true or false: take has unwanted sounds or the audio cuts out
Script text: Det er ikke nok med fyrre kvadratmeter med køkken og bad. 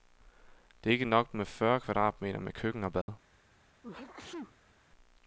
true